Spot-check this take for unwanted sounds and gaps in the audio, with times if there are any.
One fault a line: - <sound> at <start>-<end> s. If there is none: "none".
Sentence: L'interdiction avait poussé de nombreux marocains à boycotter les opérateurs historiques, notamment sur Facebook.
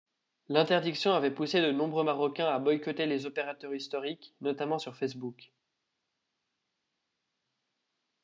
none